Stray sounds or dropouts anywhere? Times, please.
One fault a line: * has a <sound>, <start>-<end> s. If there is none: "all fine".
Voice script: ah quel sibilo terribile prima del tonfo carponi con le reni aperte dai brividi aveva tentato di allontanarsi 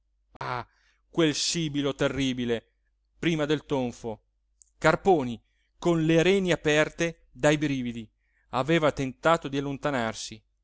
* has a dropout, 0.4-0.4 s